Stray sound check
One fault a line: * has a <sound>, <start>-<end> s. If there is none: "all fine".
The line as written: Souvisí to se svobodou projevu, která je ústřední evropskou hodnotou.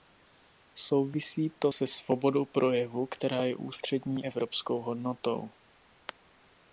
all fine